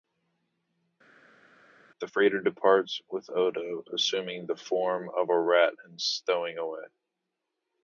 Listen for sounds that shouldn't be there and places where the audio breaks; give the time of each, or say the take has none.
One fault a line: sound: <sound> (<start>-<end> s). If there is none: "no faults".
no faults